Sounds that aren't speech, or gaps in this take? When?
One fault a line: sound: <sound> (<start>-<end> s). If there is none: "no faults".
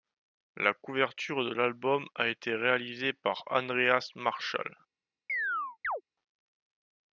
sound: chirp (5.3-6.0 s)